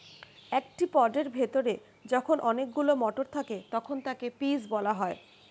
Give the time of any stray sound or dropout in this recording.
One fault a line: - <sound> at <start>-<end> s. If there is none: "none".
none